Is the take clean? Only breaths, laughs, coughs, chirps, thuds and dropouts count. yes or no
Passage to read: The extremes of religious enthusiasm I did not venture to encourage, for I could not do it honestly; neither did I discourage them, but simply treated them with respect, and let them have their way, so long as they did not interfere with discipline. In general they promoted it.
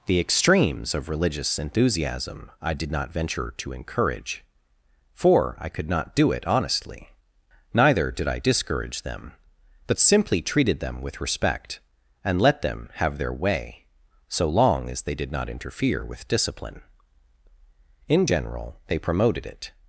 yes